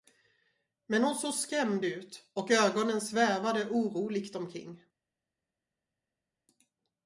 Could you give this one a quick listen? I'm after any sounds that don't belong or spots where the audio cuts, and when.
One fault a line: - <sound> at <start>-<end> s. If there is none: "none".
none